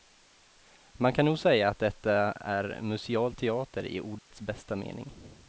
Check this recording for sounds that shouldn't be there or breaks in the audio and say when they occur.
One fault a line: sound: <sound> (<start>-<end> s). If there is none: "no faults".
sound: dropout (4.2-4.3 s)